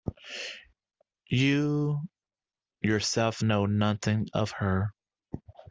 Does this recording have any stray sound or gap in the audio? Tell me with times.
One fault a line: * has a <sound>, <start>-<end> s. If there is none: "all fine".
all fine